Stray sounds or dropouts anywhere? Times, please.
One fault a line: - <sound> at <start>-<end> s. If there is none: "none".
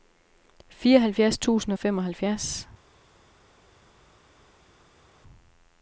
none